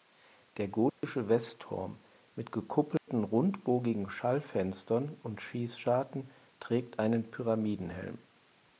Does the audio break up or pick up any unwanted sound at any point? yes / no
yes